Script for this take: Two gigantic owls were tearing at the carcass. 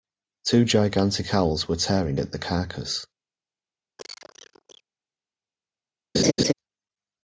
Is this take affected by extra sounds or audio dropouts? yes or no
yes